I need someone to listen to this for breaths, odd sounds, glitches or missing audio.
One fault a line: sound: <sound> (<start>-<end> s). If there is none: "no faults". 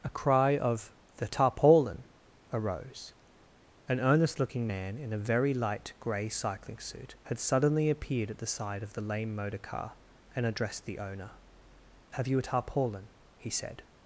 no faults